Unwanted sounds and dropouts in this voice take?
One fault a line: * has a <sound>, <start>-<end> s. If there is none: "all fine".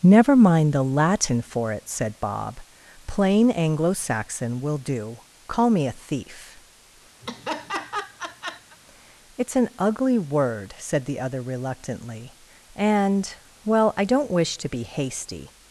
* has a laugh, 7.2-8.8 s